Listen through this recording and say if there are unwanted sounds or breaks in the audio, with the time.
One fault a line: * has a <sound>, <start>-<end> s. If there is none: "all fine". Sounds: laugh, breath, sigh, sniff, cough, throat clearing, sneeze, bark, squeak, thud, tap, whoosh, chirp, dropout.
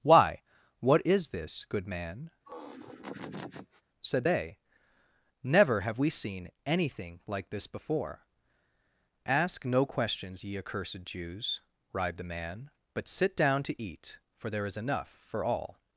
* has a laugh, 2.4-3.8 s